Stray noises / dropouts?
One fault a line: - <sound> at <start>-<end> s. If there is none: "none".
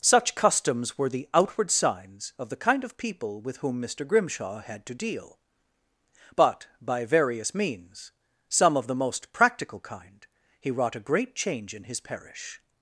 none